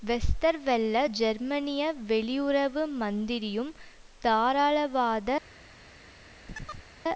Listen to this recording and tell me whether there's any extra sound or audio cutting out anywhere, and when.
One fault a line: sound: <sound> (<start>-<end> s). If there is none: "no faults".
sound: chirp (6.5-6.9 s)